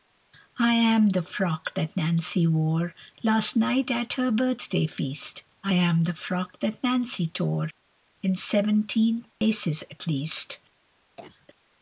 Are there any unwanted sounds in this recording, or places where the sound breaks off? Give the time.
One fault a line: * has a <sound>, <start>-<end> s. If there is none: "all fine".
* has a dropout, 9.3-9.4 s
* has a cough, 11.2-11.5 s